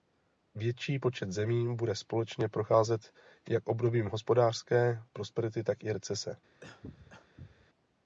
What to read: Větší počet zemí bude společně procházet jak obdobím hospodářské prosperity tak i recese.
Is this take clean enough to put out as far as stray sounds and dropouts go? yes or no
no